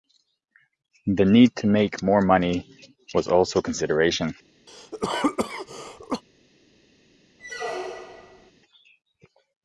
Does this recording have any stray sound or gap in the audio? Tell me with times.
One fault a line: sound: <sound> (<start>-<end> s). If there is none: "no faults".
sound: cough (4.7-6.2 s)
sound: squeak (7.4-8.5 s)